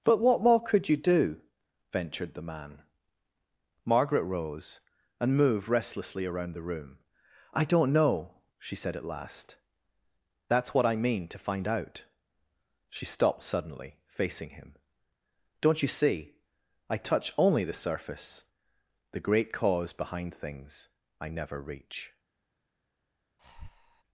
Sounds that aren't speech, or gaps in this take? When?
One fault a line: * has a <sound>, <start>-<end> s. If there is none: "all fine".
* has a breath, 23.4-24.0 s